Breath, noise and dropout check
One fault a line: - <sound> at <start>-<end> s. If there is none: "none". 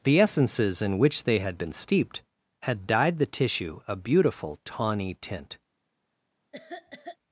- cough at 6.5-7.2 s